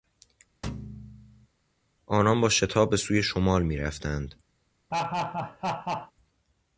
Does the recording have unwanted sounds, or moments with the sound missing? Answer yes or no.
yes